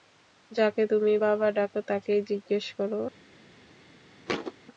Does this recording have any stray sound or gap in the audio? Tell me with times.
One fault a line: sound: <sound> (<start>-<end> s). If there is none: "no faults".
sound: thud (4.3-4.5 s)